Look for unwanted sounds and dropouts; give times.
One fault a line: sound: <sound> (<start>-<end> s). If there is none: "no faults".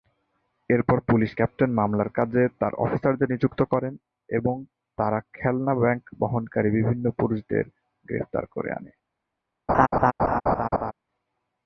sound: laugh (9.7-10.9 s)